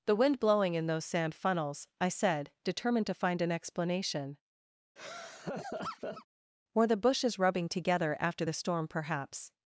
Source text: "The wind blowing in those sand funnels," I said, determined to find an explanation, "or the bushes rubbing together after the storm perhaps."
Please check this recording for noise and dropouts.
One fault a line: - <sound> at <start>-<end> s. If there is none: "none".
- laugh at 5.0-6.3 s